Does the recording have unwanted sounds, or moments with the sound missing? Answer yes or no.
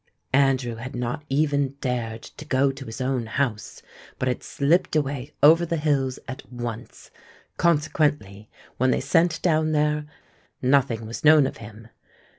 no